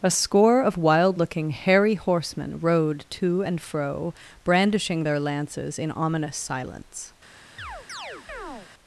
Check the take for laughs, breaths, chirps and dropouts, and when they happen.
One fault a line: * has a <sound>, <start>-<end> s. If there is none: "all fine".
* has a chirp, 7.6-8.7 s